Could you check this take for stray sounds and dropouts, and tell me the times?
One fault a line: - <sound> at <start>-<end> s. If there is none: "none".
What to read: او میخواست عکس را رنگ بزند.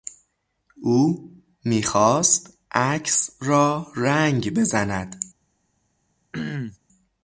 - throat clearing at 6.3-6.8 s